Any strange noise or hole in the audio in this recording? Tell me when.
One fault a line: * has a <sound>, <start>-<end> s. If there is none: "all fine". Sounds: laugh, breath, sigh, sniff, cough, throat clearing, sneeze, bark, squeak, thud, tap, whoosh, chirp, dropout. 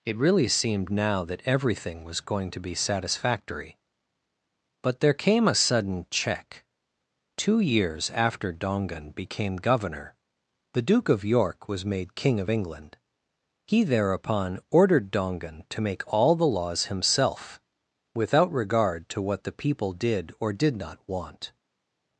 all fine